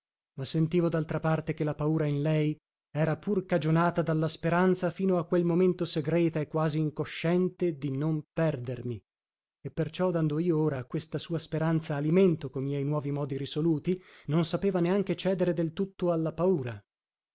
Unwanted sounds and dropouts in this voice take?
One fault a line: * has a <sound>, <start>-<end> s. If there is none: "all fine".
all fine